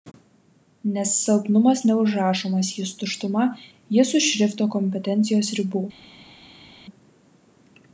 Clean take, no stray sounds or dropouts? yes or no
yes